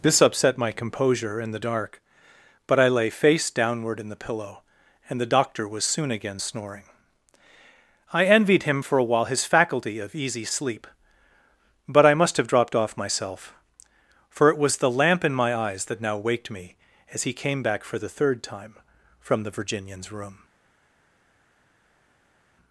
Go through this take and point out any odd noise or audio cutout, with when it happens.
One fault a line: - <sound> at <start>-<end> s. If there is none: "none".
none